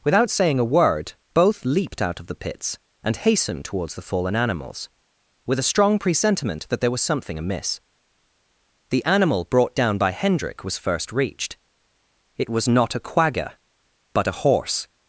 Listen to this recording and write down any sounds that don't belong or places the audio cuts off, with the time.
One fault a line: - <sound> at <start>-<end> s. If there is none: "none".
none